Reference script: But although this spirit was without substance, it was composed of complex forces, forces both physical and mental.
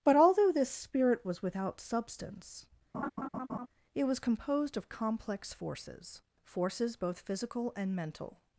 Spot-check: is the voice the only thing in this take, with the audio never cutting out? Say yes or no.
no